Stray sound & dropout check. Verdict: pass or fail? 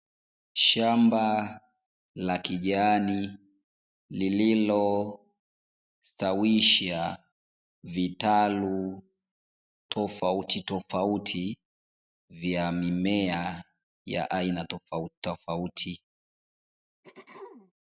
fail